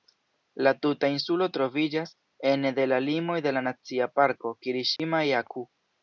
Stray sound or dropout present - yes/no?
yes